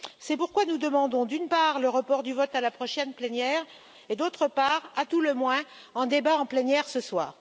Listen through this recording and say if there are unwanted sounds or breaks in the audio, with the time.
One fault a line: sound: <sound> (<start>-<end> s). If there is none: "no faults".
no faults